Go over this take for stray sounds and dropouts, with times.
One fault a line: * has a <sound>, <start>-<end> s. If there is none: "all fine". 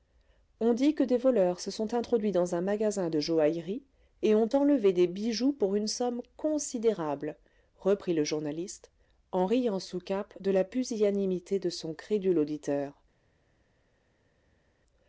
all fine